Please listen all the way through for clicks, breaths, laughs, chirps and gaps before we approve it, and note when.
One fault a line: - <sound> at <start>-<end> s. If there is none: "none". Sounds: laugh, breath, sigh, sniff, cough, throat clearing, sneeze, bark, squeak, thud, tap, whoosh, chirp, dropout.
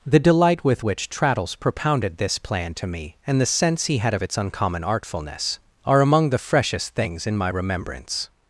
none